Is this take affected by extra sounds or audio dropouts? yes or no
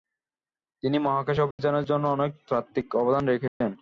yes